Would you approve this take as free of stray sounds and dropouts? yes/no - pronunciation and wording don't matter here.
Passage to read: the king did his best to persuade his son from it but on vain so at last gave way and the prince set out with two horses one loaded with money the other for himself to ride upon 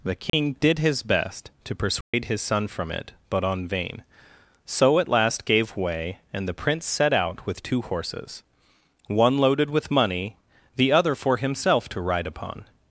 no